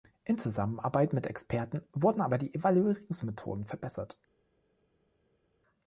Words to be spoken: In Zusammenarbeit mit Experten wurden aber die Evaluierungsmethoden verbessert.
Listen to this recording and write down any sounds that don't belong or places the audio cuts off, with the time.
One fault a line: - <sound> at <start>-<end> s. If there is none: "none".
none